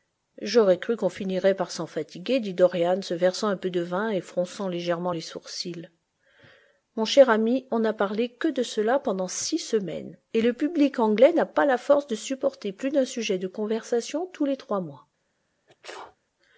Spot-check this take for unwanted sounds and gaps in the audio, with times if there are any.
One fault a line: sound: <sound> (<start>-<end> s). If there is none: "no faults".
sound: sneeze (15.7-16.2 s)